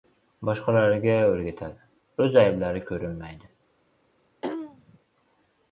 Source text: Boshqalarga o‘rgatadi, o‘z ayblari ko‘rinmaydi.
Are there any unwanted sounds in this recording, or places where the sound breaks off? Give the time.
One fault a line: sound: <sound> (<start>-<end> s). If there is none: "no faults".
sound: throat clearing (4.4-5.0 s)